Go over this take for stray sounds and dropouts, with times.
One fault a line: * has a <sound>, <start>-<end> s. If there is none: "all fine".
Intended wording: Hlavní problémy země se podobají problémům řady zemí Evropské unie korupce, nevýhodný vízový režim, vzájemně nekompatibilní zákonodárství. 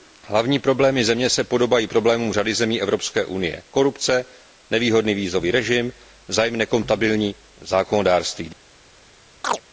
* has a chirp, 9.4-9.6 s